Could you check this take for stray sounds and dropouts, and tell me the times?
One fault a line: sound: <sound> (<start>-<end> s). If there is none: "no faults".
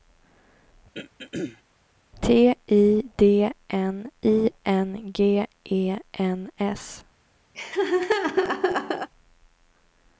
sound: throat clearing (0.9-1.6 s)
sound: laugh (7.5-9.1 s)